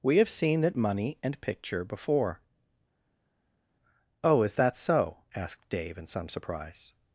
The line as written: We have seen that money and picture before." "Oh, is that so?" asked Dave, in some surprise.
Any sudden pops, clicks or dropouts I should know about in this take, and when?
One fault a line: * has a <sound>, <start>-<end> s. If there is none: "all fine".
all fine